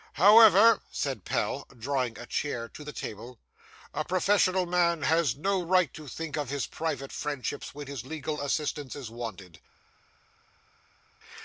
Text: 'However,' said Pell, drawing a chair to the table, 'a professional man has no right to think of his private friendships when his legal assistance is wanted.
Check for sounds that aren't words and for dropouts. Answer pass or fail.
pass